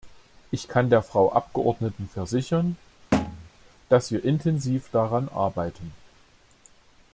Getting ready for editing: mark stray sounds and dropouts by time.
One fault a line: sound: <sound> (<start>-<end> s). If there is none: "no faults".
sound: thud (3.1-3.5 s)